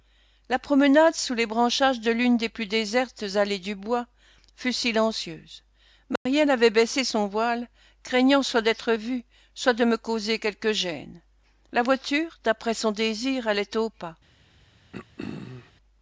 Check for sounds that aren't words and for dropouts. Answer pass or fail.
fail